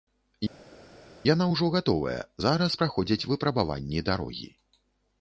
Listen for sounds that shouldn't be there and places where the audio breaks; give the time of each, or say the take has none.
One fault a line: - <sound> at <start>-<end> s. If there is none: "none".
none